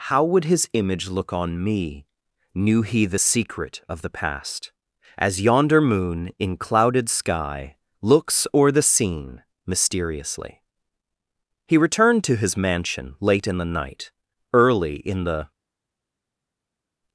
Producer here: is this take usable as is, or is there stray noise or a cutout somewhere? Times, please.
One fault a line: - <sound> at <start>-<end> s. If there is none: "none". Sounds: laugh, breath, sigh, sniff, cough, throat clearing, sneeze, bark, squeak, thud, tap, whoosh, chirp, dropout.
none